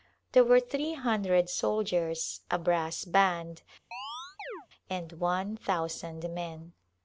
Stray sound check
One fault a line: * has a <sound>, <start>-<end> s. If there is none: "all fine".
* has a chirp, 3.9-4.7 s